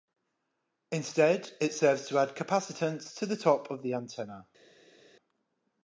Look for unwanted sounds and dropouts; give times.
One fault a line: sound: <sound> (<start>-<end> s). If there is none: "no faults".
no faults